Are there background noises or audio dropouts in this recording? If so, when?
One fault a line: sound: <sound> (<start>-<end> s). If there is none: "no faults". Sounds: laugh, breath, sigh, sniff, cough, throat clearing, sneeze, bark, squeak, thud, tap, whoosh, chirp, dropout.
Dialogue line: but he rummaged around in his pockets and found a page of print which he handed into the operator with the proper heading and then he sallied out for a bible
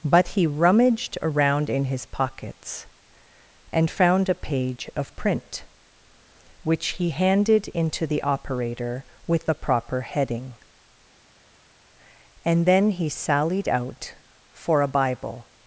no faults